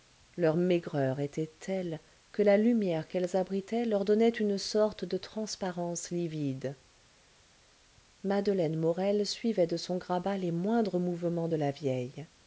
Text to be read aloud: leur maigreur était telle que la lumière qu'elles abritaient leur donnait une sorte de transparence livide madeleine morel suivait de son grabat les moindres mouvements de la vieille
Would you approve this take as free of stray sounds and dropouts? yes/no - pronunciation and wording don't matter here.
yes